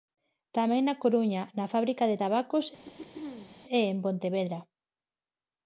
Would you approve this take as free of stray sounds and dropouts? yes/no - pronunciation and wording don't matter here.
no